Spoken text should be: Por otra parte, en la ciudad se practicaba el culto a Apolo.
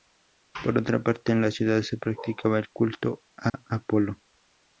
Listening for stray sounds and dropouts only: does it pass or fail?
fail